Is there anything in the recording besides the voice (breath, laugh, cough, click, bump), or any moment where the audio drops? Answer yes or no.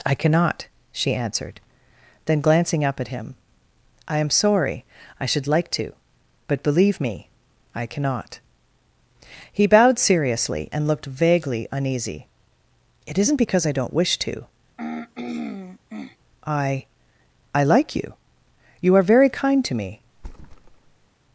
yes